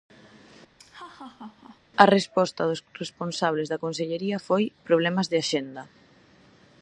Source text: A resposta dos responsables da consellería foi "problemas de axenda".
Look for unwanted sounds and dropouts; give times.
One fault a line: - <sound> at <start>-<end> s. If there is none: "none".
- laugh at 0.8-1.8 s